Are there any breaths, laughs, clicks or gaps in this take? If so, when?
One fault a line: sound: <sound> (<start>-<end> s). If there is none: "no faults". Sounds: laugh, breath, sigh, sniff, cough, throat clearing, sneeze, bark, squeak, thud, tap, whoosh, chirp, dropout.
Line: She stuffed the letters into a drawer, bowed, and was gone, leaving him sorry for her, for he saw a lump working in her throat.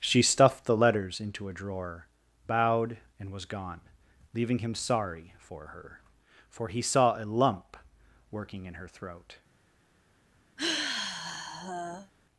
sound: sigh (10.6-12.1 s)